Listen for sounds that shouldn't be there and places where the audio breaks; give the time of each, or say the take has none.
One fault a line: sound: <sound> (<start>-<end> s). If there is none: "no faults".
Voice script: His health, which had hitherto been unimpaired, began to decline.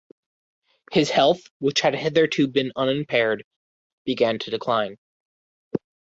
no faults